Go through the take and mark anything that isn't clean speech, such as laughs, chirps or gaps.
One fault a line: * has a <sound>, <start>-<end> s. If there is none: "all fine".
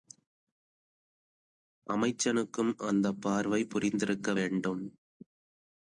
all fine